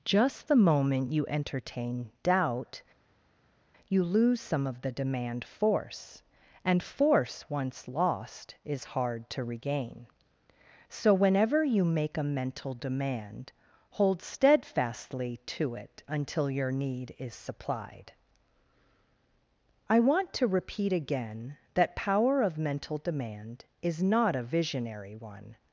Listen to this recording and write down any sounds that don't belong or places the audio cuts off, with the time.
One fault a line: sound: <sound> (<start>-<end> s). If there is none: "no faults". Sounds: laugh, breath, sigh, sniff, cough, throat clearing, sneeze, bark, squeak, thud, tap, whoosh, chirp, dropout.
no faults